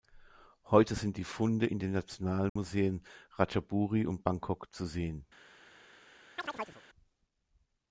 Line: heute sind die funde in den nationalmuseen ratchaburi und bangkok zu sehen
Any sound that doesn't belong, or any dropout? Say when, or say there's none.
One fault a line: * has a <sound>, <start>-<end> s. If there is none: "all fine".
* has a dropout, 2.5-2.6 s
* has a chirp, 6.4-6.8 s